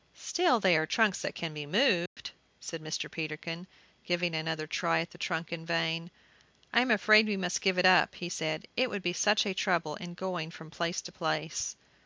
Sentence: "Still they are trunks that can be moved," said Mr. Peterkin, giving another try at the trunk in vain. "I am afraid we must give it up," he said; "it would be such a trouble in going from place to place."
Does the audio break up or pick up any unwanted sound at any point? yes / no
yes